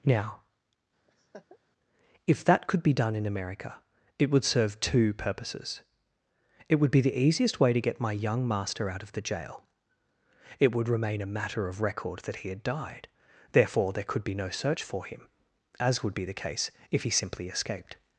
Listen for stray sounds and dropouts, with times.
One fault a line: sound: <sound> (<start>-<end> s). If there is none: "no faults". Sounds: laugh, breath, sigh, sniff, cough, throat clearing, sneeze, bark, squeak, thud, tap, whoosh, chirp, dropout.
sound: laugh (1.1-1.6 s)